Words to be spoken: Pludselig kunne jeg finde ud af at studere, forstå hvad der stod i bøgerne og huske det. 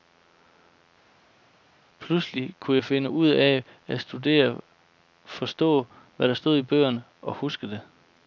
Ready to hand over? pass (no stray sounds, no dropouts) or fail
pass